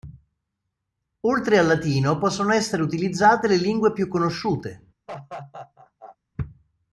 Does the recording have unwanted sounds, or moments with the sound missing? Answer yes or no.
yes